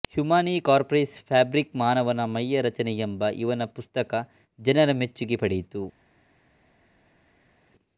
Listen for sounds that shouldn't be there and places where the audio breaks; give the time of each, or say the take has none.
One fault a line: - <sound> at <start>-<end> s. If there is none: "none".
none